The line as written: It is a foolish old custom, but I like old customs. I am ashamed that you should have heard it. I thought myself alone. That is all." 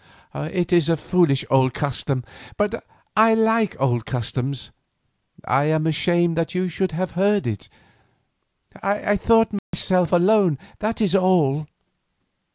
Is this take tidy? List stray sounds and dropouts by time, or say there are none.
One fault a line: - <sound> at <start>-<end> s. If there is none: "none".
- dropout at 9.6-9.7 s